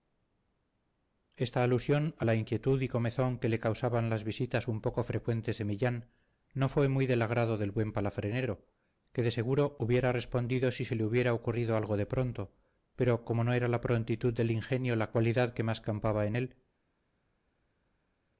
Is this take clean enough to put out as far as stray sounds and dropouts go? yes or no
yes